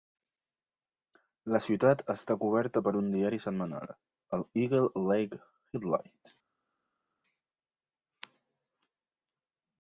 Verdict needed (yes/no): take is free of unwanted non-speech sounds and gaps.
yes